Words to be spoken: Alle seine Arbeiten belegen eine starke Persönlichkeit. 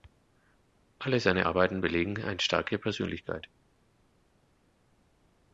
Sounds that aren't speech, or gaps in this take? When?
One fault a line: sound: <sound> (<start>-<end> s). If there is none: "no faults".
no faults